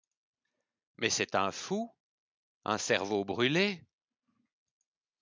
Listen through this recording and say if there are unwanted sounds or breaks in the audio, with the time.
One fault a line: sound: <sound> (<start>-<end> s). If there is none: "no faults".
no faults